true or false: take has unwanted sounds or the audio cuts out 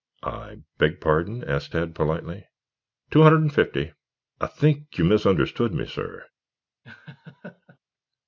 true